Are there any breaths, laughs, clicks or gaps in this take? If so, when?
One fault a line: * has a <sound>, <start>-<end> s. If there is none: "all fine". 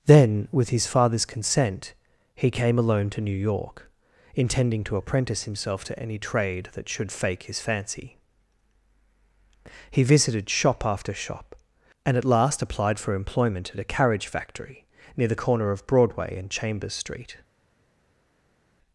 all fine